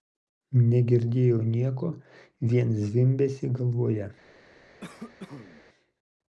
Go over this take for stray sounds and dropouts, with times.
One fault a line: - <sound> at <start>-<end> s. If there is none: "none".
- cough at 4.8-5.6 s